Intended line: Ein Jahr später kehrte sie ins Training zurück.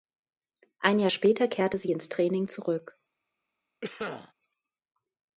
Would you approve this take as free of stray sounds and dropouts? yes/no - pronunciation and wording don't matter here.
no